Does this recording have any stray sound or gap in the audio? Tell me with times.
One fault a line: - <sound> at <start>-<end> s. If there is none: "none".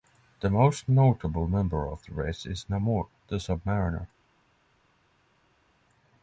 none